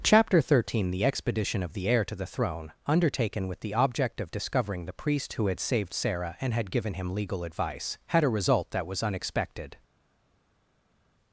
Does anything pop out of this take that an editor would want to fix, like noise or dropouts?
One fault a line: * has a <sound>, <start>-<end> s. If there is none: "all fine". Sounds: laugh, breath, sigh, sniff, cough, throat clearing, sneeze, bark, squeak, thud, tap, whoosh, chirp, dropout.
all fine